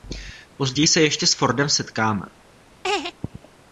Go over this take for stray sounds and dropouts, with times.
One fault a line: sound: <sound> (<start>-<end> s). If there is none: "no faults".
sound: laugh (2.8-3.1 s)